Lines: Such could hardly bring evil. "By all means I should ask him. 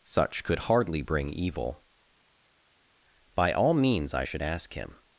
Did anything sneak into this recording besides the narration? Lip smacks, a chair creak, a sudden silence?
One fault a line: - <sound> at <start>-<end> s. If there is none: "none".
none